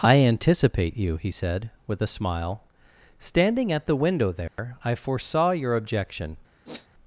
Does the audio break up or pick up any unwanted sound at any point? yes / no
yes